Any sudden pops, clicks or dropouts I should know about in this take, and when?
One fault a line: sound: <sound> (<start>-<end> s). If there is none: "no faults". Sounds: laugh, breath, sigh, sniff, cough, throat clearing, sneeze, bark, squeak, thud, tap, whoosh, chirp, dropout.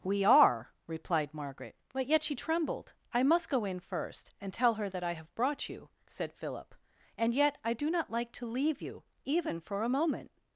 no faults